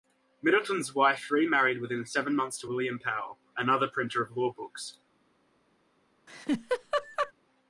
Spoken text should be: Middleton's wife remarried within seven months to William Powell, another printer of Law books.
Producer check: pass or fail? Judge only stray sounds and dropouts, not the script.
fail